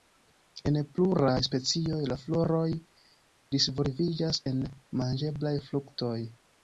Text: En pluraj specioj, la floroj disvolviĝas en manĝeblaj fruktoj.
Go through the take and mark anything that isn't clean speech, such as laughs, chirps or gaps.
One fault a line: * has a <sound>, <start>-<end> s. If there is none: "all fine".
all fine